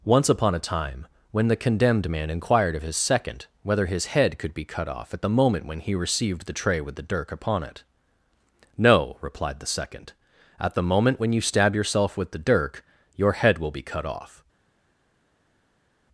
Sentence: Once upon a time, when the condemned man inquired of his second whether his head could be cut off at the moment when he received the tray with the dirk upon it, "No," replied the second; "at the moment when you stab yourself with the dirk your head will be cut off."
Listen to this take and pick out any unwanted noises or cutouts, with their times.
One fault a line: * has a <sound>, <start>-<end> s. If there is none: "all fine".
all fine